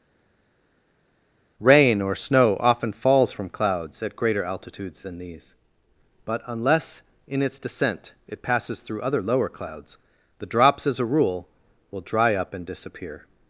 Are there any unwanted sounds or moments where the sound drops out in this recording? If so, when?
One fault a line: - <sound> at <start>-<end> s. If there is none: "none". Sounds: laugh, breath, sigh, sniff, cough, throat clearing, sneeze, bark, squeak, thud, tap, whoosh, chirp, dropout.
none